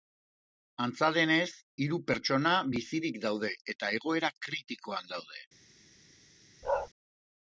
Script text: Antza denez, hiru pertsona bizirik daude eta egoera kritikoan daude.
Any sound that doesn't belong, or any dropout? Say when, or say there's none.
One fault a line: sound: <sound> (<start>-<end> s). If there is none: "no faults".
sound: bark (6.6-6.9 s)